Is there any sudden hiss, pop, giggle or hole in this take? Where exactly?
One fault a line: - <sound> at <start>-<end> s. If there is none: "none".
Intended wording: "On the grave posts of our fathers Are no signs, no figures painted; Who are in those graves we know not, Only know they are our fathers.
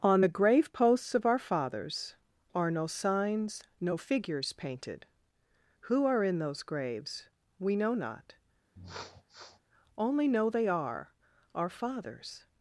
- sniff at 8.8-9.6 s